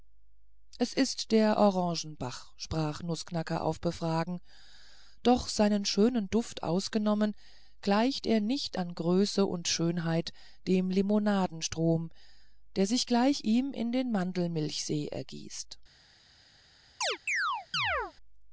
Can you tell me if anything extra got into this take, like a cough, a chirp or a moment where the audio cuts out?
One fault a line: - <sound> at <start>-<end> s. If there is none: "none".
- chirp at 17.0-18.1 s